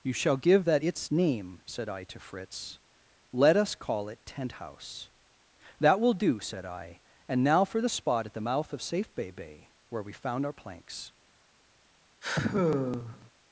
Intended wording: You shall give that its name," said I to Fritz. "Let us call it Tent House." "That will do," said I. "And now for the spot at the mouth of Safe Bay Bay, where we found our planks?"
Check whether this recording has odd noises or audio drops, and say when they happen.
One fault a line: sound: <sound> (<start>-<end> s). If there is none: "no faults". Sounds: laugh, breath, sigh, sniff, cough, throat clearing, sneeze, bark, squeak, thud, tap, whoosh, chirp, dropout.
sound: sigh (12.2-13.3 s)